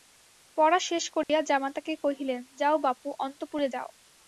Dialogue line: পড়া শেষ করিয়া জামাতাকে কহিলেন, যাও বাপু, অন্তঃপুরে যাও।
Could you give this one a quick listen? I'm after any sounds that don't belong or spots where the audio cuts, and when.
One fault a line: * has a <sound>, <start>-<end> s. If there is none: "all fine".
* has a dropout, 1.2-1.3 s